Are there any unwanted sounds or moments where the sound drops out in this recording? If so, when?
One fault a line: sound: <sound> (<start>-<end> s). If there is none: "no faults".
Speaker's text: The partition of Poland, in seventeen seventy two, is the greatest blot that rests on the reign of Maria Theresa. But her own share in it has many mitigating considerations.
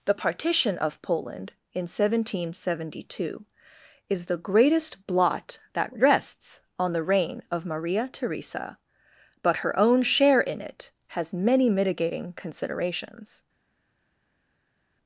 no faults